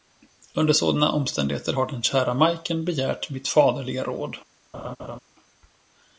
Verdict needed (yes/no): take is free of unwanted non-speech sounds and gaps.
no